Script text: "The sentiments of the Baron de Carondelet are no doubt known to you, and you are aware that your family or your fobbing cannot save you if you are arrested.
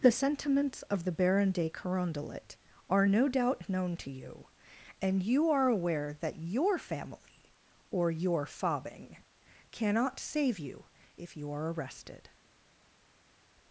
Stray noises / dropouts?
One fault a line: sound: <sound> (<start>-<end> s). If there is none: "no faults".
no faults